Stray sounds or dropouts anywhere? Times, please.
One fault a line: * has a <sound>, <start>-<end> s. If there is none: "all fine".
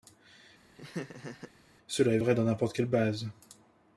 * has a laugh, 0.8-1.5 s